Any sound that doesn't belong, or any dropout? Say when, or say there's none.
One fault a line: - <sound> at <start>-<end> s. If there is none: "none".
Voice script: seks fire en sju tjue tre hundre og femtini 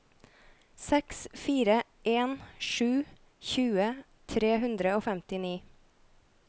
none